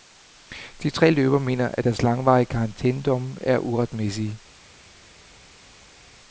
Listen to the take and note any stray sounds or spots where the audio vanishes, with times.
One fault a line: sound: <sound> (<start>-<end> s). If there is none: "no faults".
no faults